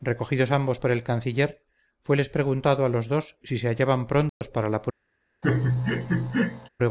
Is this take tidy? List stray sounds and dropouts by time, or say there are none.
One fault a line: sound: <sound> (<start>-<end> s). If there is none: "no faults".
sound: dropout (4.3-4.4 s)
sound: laugh (5.4-6.7 s)